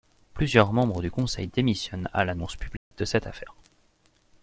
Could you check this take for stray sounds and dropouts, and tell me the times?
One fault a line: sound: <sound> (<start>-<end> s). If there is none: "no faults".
sound: dropout (2.8-2.9 s)